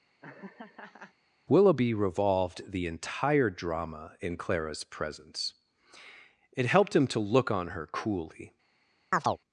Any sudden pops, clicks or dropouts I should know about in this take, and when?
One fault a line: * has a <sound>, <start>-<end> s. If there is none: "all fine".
* has a laugh, 0.2-1.1 s
* has a chirp, 9.1-9.4 s